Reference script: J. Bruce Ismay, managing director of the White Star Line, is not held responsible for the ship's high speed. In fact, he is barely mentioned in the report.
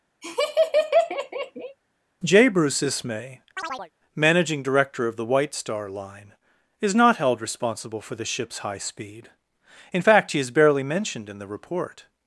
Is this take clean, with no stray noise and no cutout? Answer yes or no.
no